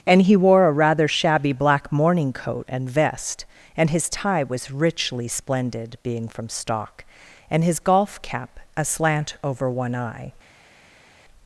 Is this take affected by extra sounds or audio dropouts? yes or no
no